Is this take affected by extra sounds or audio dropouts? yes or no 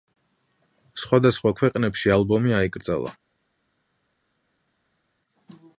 no